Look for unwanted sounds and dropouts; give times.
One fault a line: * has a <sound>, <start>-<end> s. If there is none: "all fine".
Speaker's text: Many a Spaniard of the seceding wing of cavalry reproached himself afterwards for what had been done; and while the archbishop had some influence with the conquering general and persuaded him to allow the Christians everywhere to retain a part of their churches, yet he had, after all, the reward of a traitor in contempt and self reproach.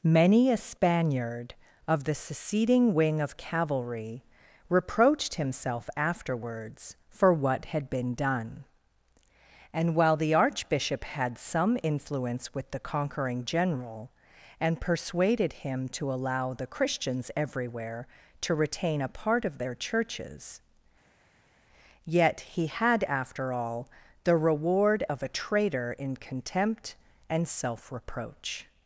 all fine